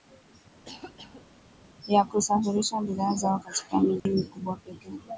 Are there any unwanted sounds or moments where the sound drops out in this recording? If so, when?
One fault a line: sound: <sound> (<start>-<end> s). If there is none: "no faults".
sound: cough (0.6-1.3 s)
sound: dropout (4.0-4.1 s)